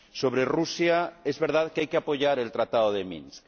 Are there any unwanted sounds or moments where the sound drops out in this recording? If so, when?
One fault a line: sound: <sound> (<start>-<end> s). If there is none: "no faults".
no faults